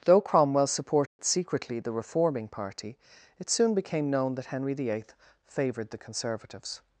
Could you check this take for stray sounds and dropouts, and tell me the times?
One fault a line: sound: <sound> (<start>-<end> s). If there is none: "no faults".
sound: dropout (1.1-1.2 s)